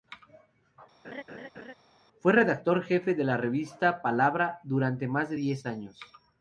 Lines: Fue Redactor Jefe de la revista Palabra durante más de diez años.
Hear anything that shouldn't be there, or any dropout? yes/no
yes